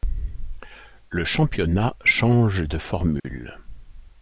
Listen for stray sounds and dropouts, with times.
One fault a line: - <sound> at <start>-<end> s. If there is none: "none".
- dropout at 3.2-3.2 s